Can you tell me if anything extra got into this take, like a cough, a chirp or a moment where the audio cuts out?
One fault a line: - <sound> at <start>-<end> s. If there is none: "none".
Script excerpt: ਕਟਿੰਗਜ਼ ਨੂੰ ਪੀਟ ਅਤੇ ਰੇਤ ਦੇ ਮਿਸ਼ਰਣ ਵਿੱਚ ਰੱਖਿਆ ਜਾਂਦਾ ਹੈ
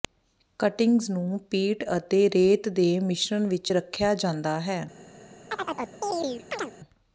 - chirp at 5.5-6.7 s